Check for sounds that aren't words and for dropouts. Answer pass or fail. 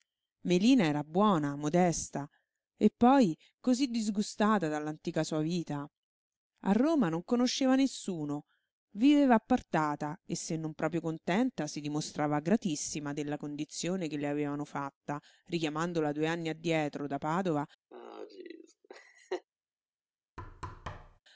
fail